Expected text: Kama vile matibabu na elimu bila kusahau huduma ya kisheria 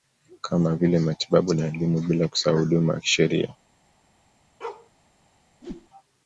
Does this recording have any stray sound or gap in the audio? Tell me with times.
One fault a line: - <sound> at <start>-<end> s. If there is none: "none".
- bark at 4.6-4.9 s
- whoosh at 5.6-5.9 s